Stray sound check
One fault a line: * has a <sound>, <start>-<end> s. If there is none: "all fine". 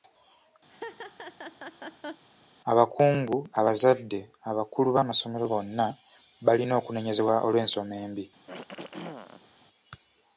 * has a laugh, 0.7-2.2 s
* has a throat clearing, 8.5-9.5 s